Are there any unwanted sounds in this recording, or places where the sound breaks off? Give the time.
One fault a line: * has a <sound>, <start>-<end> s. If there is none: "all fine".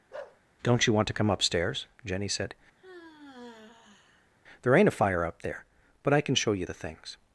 * has a bark, 0.1-0.4 s
* has a sigh, 2.8-4.3 s